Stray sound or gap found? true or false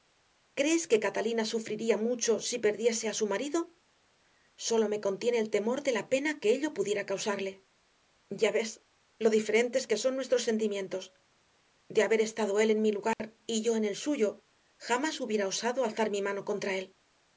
true